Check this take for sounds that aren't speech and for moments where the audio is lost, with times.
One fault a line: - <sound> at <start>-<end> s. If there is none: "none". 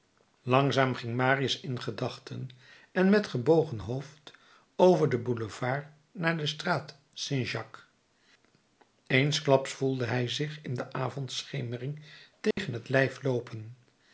- dropout at 12.5-12.6 s